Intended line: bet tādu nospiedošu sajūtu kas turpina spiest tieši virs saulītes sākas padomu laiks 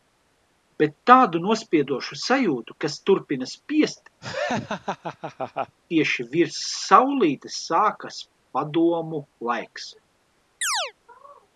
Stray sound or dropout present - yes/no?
yes